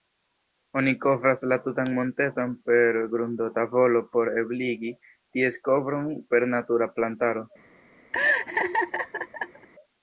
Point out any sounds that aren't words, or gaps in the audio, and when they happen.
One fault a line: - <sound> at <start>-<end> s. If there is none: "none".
- laugh at 8.1-9.7 s